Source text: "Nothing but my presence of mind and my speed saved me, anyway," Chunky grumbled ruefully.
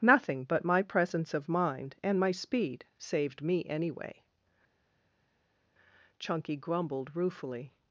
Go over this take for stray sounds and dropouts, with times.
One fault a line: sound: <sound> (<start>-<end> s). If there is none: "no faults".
no faults